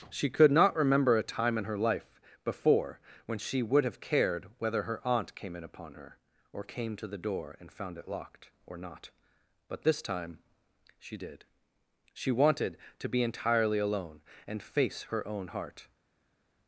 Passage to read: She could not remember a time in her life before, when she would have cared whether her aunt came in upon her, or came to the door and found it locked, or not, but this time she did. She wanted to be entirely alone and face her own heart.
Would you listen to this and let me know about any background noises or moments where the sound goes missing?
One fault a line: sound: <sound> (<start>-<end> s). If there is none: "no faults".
no faults